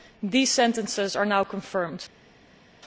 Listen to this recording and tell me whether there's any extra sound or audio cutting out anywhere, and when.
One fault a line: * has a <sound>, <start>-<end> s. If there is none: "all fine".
all fine